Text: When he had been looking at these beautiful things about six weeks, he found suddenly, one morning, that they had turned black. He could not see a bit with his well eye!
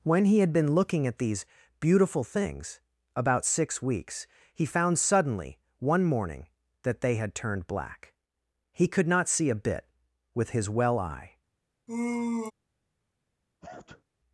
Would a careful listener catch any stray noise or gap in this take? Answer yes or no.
yes